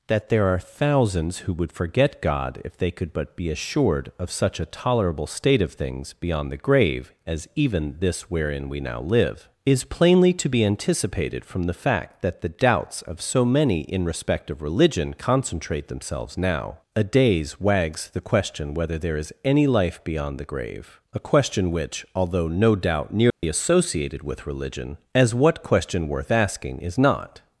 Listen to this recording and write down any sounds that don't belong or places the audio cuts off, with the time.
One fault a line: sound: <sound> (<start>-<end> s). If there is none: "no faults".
sound: dropout (23.3-23.4 s)